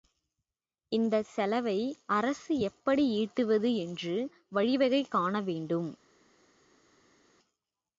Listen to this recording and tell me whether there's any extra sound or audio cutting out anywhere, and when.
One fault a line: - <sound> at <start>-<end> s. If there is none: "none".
none